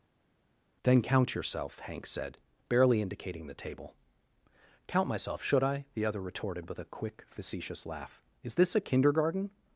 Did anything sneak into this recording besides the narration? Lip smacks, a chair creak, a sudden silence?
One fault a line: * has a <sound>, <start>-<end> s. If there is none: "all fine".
all fine